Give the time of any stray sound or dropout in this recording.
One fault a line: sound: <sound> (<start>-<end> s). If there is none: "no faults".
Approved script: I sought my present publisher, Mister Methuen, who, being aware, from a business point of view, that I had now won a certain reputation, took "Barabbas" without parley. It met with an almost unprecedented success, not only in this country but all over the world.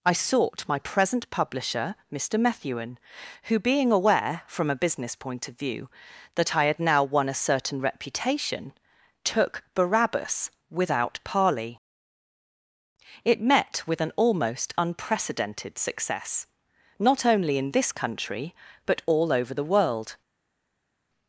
no faults